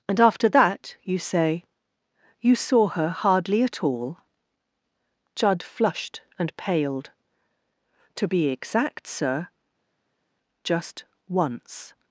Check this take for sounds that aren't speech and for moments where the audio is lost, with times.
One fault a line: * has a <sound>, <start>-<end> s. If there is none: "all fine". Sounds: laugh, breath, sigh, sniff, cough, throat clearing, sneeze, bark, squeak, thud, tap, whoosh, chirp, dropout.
all fine